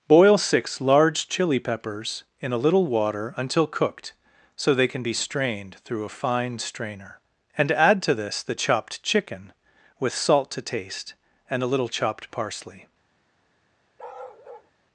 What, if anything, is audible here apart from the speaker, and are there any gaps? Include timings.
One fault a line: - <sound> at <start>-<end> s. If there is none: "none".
- bark at 14.0-14.7 s